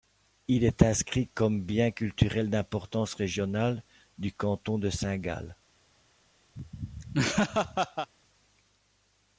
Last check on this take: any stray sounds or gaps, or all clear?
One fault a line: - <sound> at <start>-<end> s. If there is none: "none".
- laugh at 6.6-8.1 s